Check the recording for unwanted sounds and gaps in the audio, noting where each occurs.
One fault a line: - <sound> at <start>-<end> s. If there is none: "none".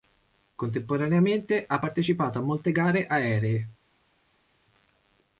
none